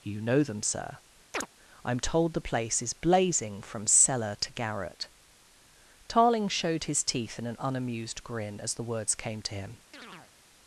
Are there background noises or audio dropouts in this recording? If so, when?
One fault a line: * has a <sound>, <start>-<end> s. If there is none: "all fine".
* has a chirp, 1.3-1.5 s
* has a chirp, 9.9-10.3 s